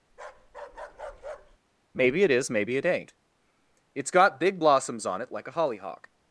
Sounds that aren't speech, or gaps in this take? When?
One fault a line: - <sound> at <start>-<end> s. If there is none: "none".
- bark at 0.1-1.6 s